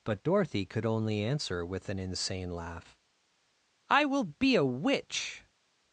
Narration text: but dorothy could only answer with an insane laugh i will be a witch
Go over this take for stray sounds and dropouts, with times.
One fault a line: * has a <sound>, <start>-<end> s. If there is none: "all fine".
all fine